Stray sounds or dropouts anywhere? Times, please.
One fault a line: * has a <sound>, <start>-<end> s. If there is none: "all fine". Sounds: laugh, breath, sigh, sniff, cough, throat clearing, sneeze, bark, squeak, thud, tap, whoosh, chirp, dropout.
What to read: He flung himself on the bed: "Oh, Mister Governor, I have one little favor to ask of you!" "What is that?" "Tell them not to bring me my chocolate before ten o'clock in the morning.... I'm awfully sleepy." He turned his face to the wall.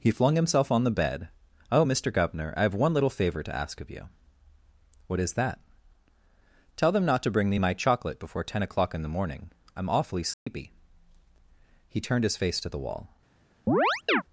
* has a dropout, 10.3-10.5 s
* has a chirp, 13.7-14.2 s